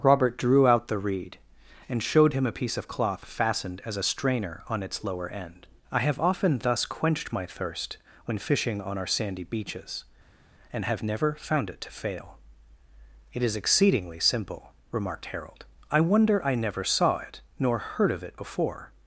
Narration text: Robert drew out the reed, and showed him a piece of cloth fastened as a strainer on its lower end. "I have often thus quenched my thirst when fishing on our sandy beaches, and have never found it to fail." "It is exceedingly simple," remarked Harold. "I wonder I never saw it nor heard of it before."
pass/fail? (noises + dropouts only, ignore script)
pass